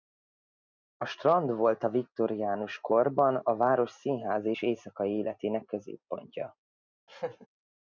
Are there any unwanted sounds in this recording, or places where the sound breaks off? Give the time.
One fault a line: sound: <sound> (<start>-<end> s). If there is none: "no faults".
sound: laugh (7.1-7.5 s)